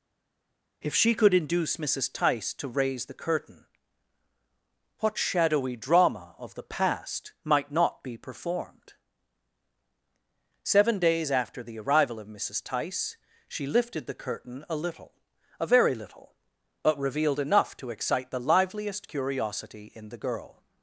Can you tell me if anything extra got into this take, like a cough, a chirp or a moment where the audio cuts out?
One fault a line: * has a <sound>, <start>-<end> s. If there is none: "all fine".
all fine